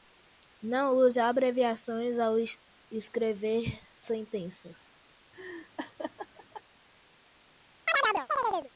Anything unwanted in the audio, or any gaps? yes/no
yes